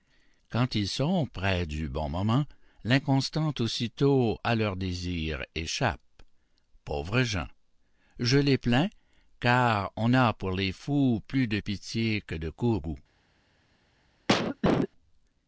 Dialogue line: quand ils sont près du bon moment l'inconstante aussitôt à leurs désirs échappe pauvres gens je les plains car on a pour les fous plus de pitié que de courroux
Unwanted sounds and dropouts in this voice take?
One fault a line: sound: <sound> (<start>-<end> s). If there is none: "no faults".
sound: cough (14.3-14.9 s)